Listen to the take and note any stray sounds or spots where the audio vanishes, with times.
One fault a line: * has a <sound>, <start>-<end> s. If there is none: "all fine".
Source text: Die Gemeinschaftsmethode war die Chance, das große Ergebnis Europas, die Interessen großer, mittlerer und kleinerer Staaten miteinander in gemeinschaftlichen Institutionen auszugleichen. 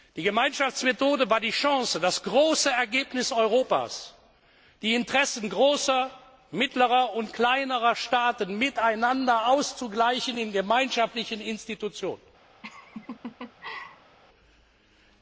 * has a laugh, 12.6-14.2 s